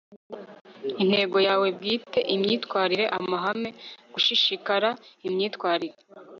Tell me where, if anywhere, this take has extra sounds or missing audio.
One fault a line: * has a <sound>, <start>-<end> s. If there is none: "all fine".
all fine